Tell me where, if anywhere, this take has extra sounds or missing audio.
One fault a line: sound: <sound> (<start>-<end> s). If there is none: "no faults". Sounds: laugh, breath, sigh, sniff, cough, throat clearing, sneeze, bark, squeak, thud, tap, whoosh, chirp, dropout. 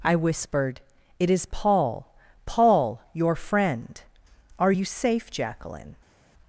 no faults